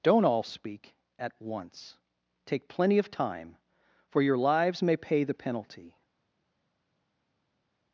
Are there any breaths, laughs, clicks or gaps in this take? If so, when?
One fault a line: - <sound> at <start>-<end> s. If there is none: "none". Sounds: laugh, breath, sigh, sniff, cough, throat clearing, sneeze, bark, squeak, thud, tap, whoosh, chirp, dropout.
none